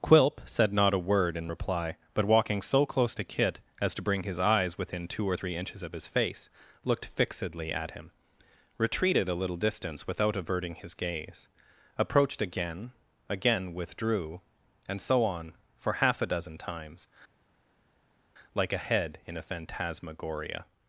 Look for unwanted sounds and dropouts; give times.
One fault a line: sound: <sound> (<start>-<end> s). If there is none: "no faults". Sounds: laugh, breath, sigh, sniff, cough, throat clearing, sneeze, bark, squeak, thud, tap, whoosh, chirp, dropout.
no faults